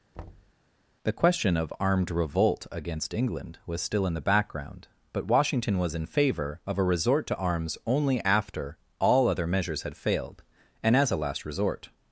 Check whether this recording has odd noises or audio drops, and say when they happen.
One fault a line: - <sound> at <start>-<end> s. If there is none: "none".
- thud at 0.1-0.5 s